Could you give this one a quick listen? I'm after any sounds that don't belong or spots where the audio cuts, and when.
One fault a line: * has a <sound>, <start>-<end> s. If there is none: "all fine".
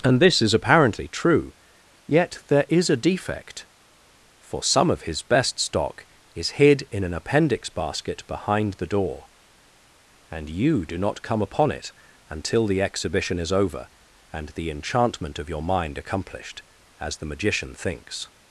all fine